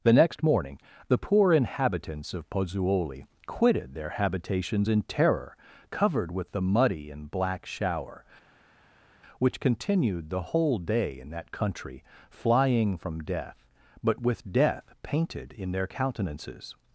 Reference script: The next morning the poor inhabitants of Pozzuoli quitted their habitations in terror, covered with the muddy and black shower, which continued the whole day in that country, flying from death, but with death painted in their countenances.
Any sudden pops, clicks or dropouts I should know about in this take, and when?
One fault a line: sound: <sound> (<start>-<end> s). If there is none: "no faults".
no faults